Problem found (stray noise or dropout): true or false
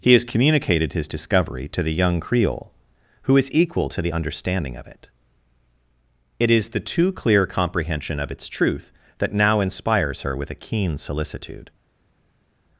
false